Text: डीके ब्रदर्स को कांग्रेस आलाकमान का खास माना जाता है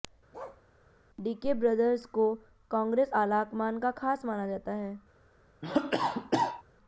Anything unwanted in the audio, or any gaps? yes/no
yes